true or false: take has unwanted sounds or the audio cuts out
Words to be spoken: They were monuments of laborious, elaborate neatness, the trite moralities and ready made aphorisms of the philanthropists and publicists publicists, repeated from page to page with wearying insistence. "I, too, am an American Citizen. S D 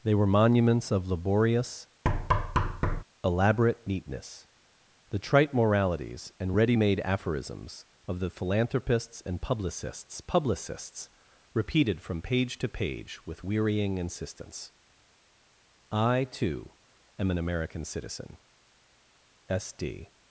true